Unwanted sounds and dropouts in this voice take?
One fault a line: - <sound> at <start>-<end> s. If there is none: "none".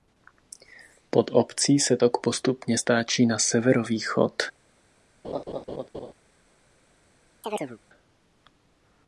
- laugh at 5.2-6.1 s
- chirp at 7.4-7.8 s